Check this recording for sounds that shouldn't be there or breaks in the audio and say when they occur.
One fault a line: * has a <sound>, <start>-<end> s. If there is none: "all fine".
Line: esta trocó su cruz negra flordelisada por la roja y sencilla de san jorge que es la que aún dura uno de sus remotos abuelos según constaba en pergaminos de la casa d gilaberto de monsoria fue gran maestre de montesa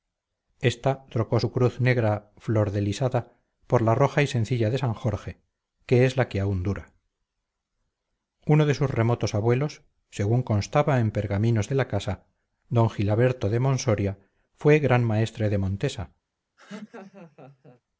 * has a laugh, 16.6-17.8 s